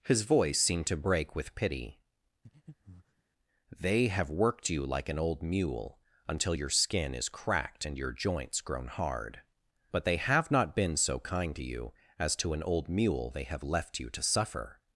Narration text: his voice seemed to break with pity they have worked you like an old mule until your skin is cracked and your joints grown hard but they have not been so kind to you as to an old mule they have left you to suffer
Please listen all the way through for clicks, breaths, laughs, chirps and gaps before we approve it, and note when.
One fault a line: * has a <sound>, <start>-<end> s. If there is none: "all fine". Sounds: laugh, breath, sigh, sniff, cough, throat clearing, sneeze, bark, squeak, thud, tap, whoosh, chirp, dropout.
* has a breath, 2.4-3.2 s